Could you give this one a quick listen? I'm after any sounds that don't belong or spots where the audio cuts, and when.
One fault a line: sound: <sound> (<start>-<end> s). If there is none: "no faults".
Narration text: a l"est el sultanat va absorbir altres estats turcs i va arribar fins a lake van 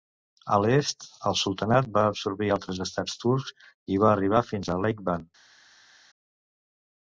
no faults